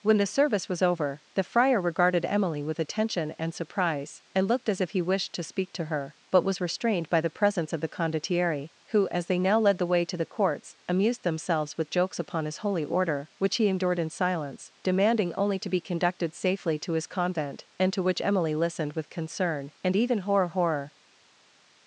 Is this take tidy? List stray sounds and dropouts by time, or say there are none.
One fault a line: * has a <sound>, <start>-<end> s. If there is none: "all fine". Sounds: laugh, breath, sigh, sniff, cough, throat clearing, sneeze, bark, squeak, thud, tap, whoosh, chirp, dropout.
all fine